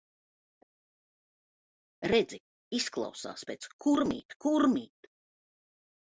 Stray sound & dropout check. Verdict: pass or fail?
pass